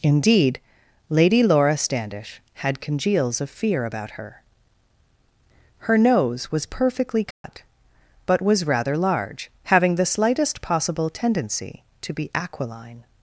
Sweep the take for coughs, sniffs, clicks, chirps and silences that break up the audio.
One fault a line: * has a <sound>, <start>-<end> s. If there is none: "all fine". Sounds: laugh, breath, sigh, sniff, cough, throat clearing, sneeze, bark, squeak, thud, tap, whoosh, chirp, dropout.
* has a dropout, 7.3-7.4 s